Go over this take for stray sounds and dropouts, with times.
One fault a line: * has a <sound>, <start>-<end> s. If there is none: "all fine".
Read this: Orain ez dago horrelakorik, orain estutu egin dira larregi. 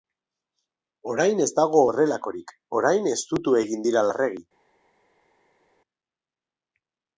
all fine